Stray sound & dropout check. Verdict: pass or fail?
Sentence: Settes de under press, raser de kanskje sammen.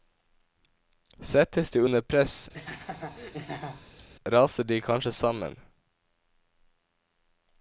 fail